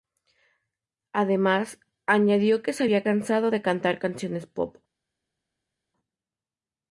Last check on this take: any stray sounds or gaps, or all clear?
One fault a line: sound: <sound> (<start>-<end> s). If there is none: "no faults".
no faults